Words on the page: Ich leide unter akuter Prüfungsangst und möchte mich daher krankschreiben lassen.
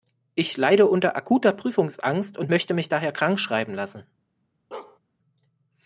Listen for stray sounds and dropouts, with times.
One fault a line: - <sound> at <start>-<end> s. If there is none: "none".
- bark at 4.7-5.0 s